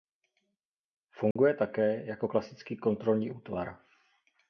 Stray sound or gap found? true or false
true